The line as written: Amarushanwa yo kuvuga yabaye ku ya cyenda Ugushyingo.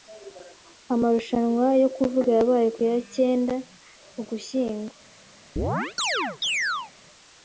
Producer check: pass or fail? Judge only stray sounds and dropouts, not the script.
fail